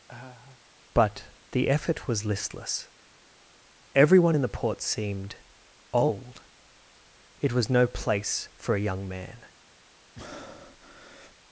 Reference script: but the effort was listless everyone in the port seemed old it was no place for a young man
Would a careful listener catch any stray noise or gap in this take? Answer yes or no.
yes